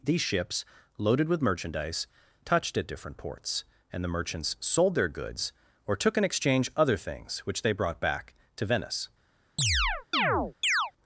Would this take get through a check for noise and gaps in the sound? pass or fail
fail